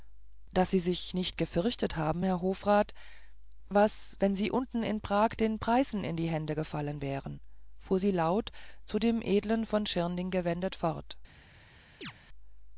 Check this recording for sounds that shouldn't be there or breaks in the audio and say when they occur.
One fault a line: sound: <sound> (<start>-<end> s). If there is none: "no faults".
sound: chirp (12.0-12.1 s)